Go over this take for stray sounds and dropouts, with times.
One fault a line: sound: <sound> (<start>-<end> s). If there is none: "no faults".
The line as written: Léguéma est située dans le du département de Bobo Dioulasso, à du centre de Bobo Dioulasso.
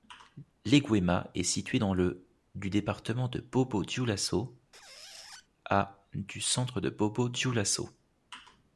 sound: squeak (4.7-5.5 s)